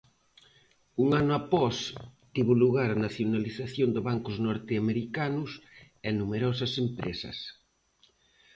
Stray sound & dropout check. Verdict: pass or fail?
pass